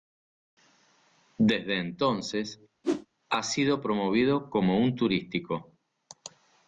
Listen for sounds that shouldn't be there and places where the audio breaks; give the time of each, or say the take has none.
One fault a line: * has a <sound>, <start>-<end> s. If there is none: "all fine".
* has a whoosh, 2.8-3.1 s